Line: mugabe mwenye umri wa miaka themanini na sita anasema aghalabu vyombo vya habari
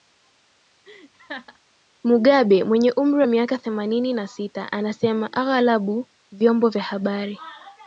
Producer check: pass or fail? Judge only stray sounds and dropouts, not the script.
fail